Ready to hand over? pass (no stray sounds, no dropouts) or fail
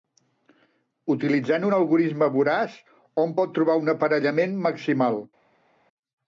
pass